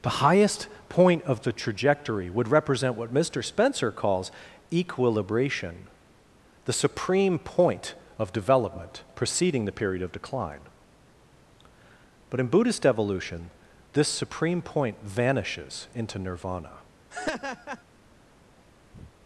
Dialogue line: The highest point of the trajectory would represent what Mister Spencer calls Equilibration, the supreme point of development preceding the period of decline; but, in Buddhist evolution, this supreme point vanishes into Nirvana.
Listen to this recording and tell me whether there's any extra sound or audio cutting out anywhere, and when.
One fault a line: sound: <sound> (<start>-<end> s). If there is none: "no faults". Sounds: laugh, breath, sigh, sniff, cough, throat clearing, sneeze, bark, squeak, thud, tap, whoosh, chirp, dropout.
sound: laugh (17.1-17.8 s)
sound: breath (18.9-19.1 s)